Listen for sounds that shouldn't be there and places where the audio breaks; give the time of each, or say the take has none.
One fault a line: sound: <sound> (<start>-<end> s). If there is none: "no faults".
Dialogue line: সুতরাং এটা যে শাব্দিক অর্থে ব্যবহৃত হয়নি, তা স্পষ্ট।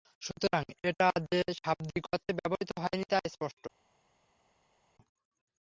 no faults